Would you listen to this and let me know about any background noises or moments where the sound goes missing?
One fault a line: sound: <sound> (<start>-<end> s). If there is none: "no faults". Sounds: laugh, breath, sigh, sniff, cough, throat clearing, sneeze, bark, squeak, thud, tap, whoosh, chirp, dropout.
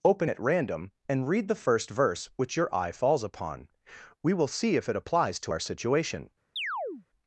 sound: chirp (6.6-7.1 s)